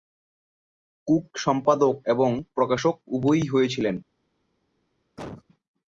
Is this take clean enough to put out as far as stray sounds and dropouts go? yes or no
no